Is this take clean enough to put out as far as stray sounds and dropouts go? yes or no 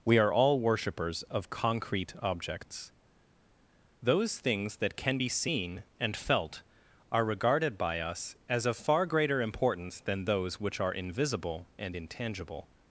yes